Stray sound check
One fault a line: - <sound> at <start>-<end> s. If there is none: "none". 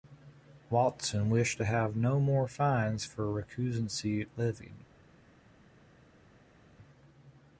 none